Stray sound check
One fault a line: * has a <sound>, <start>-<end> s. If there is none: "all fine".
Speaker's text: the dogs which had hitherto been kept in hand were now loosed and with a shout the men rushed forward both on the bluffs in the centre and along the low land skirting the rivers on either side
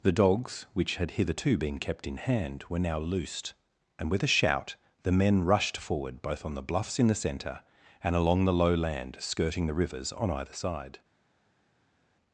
all fine